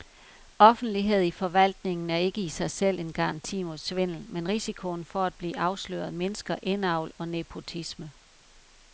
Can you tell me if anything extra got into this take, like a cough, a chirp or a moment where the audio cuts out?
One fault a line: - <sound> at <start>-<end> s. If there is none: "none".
none